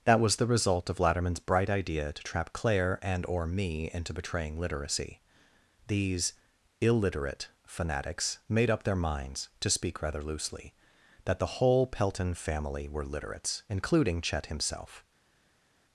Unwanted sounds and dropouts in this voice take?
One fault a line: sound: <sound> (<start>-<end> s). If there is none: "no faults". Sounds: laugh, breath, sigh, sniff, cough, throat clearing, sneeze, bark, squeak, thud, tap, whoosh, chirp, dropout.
no faults